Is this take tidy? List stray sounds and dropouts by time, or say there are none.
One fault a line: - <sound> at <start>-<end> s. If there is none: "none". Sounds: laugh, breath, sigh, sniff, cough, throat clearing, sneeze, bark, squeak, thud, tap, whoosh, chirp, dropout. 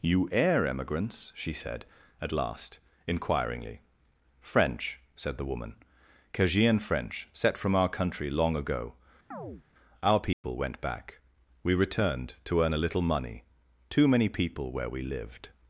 - chirp at 9.3-9.6 s
- dropout at 10.3-10.4 s